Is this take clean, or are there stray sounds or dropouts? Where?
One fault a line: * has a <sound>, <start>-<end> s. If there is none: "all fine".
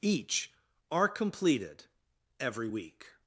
all fine